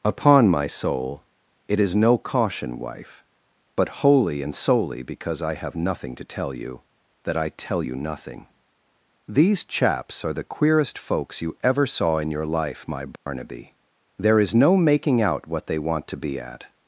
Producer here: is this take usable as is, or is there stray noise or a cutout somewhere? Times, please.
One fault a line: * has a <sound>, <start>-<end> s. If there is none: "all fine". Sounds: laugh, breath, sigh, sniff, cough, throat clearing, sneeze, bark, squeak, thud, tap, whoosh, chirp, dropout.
* has a dropout, 13.2-13.3 s